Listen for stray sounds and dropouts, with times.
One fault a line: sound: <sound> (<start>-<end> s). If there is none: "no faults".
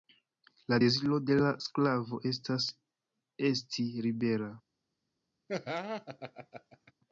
sound: laugh (5.5-6.9 s)